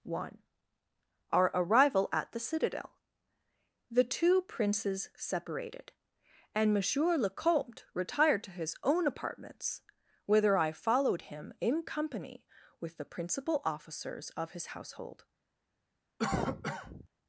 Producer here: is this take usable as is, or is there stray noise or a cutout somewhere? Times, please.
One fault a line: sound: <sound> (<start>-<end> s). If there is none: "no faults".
sound: cough (16.2-17.1 s)